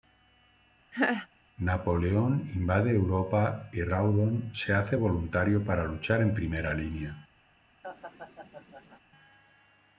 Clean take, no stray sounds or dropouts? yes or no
no